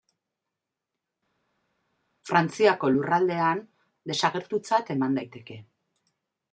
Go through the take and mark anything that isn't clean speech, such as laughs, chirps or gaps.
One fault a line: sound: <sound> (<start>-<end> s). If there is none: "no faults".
no faults